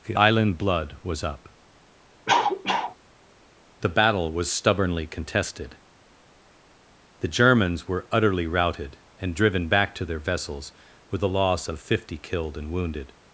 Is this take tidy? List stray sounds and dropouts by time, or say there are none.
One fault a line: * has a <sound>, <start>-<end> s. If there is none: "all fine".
* has a cough, 2.3-3.0 s